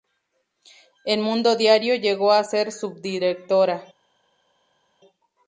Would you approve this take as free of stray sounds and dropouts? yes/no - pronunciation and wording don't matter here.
yes